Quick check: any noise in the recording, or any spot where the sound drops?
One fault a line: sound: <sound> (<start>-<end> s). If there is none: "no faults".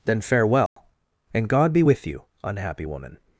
sound: dropout (0.7-0.8 s)